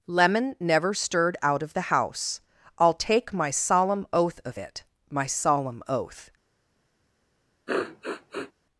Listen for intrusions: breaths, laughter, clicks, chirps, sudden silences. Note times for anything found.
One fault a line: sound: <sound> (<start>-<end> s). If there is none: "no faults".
sound: sniff (7.7-8.5 s)